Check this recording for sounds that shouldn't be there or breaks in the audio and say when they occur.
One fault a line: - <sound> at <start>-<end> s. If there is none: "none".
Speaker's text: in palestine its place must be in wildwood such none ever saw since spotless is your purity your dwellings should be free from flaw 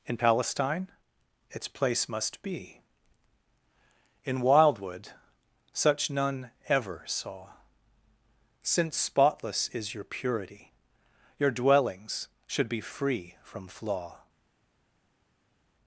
none